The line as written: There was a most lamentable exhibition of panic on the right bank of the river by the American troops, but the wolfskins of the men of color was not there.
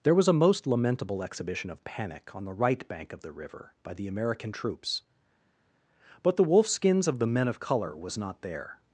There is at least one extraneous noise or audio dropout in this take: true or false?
false